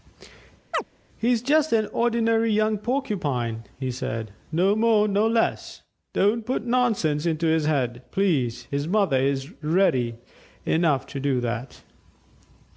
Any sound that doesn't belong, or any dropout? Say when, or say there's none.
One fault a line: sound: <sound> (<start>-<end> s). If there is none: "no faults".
sound: chirp (0.7-0.8 s)